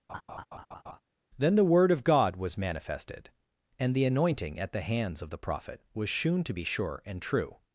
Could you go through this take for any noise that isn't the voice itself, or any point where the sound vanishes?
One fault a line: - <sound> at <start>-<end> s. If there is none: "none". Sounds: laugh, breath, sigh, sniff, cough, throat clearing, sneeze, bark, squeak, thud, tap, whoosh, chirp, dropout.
- laugh at 0.1-1.0 s